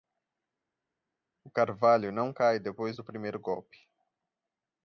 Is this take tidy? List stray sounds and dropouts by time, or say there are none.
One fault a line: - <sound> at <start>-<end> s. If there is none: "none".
none